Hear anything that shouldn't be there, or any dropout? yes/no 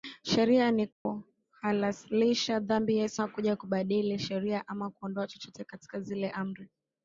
yes